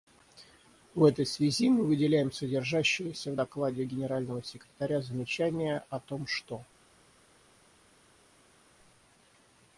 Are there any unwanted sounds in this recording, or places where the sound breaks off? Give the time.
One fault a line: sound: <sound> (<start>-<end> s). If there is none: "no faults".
no faults